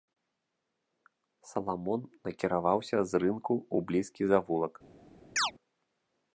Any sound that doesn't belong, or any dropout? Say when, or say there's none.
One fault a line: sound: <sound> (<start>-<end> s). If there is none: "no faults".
sound: chirp (5.4-5.5 s)